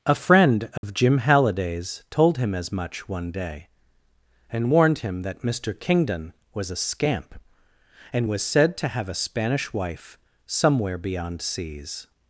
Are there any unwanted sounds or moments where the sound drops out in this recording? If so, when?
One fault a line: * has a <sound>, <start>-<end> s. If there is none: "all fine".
* has a dropout, 0.8-0.8 s